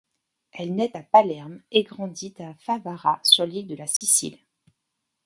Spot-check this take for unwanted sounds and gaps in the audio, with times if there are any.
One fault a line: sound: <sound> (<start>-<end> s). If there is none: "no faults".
sound: dropout (4.0-4.0 s)